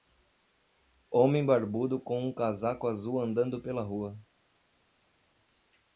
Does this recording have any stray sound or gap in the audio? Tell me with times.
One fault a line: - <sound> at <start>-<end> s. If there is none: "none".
none